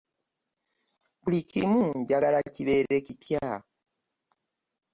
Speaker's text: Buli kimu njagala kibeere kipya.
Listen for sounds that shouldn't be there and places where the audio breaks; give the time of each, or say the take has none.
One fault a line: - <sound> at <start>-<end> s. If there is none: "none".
none